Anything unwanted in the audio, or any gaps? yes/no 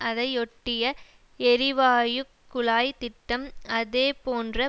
no